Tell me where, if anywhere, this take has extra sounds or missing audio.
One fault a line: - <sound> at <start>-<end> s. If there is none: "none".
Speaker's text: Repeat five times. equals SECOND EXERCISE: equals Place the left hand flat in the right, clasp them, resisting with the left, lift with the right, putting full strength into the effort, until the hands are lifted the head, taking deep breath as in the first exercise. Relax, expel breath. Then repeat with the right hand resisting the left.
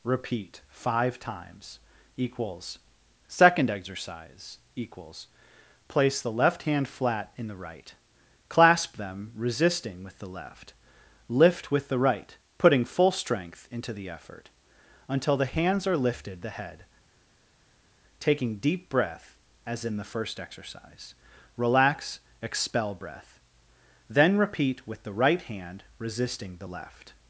none